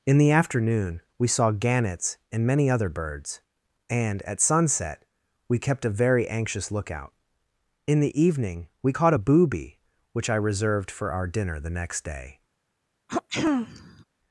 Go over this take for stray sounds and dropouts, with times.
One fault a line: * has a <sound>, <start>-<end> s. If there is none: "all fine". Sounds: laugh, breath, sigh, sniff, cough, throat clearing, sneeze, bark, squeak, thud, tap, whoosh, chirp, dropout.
* has a throat clearing, 13.1-14.0 s